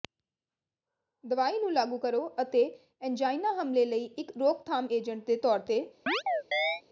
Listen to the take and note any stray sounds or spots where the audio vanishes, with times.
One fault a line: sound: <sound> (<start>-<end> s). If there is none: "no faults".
sound: chirp (6.1-6.8 s)